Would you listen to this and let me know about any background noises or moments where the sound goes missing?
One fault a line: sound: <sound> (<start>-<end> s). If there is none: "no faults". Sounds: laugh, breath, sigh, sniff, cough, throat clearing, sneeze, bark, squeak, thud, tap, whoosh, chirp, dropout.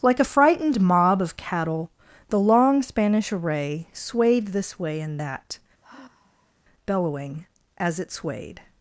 sound: sigh (5.8-6.5 s)